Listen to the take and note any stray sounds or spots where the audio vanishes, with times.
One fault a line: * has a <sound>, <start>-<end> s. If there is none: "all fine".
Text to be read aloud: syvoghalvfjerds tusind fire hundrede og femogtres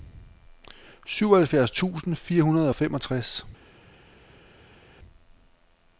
all fine